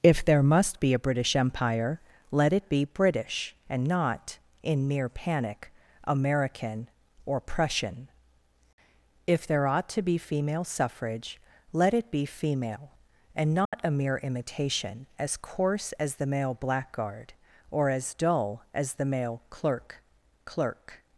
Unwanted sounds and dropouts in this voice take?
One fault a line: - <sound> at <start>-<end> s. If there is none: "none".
- dropout at 13.7-13.7 s